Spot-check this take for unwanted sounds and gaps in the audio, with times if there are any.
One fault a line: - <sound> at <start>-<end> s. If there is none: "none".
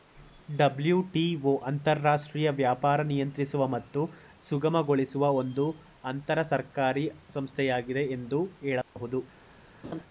- dropout at 8.8-9.0 s
- laugh at 9.8-10.0 s